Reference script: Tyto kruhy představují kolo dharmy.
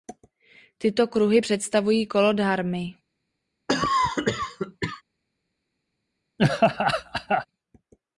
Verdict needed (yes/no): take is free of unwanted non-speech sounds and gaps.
no